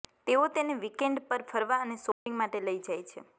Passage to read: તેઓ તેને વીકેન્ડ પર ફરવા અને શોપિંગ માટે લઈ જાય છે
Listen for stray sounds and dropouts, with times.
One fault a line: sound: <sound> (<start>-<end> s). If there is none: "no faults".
sound: dropout (2.1-2.3 s)